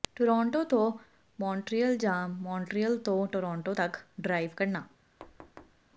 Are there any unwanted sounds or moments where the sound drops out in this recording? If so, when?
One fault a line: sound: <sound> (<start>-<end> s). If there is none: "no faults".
sound: thud (5.2-5.8 s)